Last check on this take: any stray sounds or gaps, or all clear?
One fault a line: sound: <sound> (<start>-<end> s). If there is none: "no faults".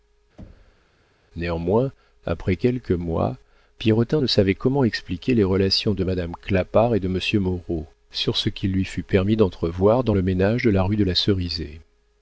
sound: thud (0.4-0.9 s)